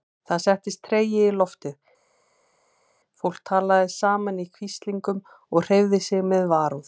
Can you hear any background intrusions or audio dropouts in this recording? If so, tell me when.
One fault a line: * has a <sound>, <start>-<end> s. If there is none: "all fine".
all fine